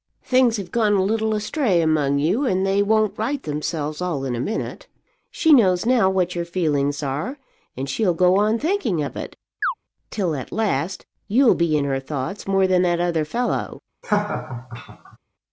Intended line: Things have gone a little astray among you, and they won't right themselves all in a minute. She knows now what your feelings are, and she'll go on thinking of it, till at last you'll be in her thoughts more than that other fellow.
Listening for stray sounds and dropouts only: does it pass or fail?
fail